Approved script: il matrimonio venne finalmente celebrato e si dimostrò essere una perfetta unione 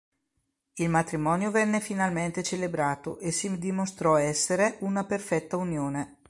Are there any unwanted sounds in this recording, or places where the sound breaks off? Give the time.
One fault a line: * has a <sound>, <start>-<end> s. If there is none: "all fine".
all fine